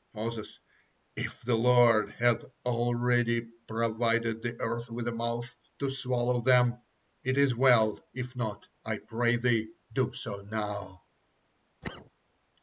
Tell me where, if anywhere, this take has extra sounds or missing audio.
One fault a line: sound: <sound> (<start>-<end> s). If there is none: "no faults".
sound: cough (11.8-12.1 s)